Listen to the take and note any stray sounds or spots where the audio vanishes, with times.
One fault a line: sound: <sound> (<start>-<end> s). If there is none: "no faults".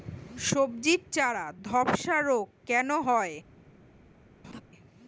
sound: laugh (4.4-4.6 s)